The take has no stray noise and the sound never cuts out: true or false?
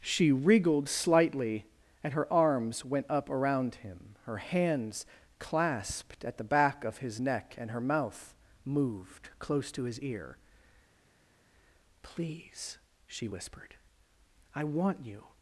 true